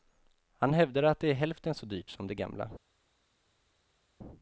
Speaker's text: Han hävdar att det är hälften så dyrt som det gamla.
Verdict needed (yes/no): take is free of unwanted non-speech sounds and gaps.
yes